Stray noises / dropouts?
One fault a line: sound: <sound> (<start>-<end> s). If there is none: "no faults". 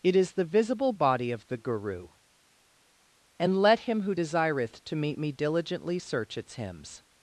no faults